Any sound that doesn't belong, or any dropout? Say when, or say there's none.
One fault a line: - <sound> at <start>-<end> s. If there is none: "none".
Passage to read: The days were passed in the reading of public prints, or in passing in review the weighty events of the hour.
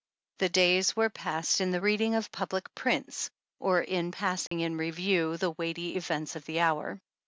- dropout at 4.5-4.5 s